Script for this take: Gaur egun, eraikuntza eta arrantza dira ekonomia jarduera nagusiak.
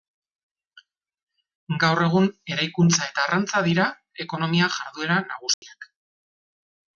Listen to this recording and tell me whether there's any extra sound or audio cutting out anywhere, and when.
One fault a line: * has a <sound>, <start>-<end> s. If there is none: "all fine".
* has a dropout, 5.5-5.6 s